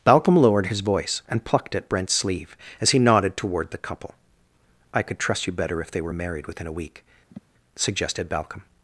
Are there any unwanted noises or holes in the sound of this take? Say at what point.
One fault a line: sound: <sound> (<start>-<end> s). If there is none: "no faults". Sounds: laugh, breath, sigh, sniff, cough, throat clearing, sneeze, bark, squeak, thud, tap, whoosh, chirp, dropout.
sound: sniff (7.3-7.4 s)